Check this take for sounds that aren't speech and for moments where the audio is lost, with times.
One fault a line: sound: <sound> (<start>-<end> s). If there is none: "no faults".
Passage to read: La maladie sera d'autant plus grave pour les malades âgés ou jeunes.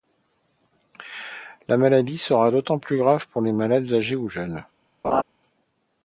sound: laugh (5.0-5.2 s)